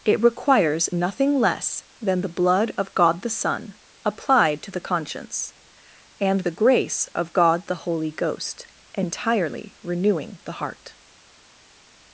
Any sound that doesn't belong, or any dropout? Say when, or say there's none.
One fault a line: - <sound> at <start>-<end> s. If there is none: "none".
none